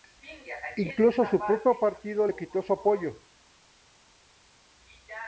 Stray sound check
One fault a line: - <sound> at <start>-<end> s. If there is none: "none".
none